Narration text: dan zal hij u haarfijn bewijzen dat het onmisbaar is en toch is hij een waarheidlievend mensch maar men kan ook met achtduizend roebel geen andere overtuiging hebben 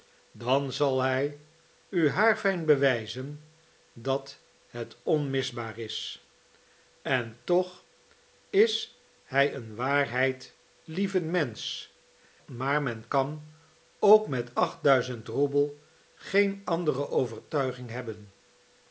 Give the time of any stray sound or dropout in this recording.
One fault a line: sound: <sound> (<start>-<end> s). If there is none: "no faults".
no faults